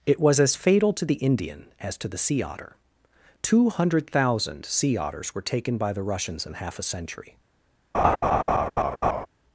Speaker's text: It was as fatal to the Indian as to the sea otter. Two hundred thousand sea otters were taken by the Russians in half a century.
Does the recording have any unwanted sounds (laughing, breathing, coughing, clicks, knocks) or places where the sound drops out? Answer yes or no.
yes